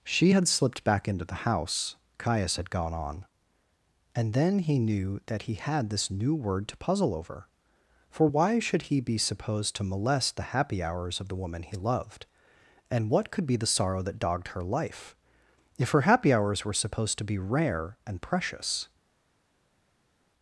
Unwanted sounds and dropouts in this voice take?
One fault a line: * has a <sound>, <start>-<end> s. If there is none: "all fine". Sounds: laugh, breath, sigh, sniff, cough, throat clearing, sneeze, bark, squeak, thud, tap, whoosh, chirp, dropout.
all fine